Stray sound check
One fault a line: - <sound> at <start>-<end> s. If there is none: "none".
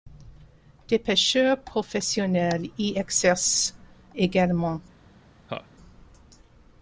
- laugh at 5.5-5.7 s